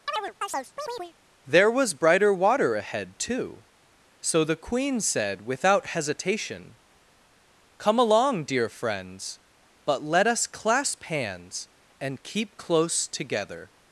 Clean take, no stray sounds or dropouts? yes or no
no